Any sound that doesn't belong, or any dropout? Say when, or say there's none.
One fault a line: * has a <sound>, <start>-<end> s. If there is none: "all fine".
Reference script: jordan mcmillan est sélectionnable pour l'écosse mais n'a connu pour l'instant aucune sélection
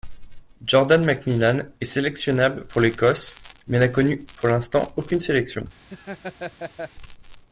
* has a laugh, 5.9-6.9 s